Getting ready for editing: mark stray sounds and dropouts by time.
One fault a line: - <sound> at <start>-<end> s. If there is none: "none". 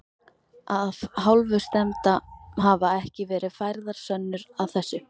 none